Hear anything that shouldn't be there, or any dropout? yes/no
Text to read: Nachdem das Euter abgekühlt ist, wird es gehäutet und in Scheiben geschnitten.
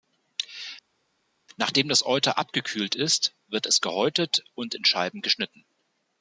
no